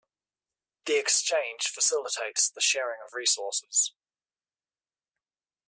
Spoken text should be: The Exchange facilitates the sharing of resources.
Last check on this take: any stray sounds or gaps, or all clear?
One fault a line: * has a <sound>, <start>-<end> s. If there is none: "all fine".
all fine